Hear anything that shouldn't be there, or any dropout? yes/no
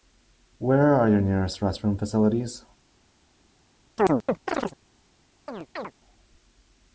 yes